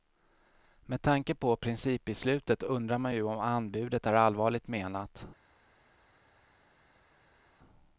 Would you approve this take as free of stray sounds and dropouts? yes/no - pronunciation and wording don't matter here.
yes